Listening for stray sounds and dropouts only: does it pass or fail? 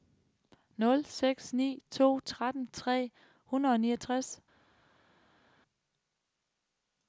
pass